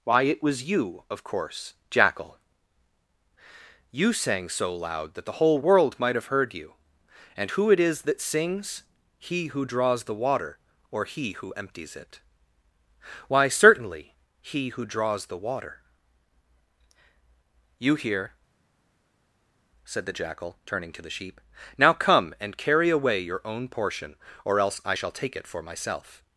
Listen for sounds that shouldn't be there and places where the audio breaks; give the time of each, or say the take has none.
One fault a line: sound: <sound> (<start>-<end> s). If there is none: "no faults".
no faults